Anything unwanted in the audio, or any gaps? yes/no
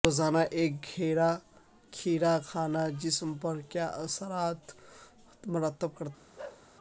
yes